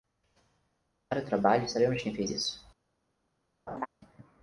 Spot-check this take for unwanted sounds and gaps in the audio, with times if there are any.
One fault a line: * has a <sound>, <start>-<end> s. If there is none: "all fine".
* has a laugh, 3.7-3.9 s